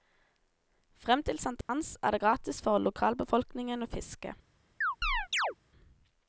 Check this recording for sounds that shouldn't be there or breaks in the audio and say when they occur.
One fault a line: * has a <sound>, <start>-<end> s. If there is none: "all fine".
* has a dropout, 1.6-1.7 s
* has a chirp, 4.8-5.5 s